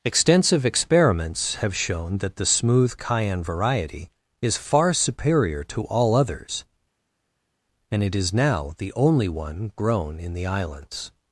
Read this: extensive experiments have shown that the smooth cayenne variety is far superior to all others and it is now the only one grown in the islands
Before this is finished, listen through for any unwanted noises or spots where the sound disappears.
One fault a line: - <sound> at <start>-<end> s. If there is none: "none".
none